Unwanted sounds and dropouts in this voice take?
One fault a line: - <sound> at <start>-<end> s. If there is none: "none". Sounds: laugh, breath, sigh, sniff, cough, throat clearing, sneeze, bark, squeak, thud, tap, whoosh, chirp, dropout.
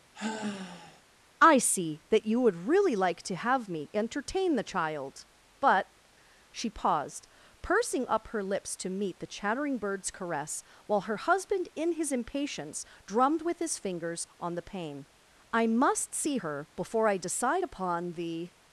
- sigh at 0.1-1.0 s